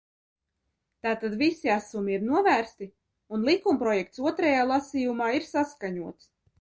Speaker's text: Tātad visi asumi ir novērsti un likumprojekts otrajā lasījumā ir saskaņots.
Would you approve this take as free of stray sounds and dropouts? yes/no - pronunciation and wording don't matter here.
yes